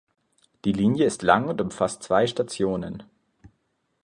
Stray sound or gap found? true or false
false